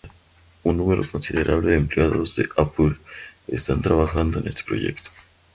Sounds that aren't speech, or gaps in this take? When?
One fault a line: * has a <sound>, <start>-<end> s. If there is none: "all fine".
all fine